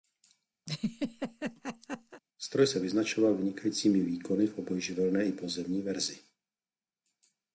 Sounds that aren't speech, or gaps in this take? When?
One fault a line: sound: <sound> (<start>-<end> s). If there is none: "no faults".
sound: laugh (0.7-2.2 s)